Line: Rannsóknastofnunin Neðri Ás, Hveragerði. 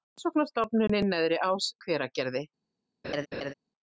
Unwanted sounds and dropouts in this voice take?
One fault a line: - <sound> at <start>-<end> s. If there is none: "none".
- laugh at 3.0-3.5 s